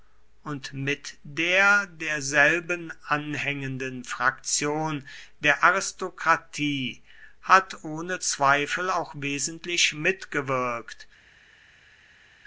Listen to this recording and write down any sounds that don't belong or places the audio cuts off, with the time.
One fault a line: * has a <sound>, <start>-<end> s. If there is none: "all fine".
all fine